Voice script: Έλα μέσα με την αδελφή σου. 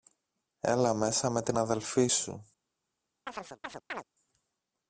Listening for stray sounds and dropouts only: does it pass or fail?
fail